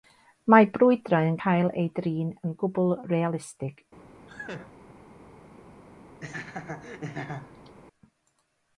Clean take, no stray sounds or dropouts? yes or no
no